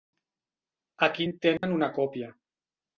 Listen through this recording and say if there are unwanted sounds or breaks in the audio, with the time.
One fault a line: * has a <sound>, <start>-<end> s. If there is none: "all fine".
* has a dropout, 1.6-1.6 s